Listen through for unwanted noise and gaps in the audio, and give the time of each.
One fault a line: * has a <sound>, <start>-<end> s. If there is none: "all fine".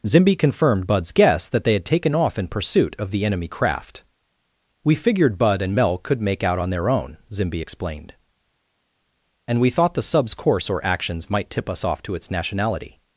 all fine